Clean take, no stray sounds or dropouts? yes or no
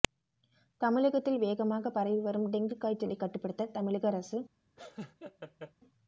no